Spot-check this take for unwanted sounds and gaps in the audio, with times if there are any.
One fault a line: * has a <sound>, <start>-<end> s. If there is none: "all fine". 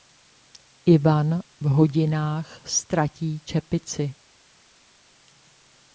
all fine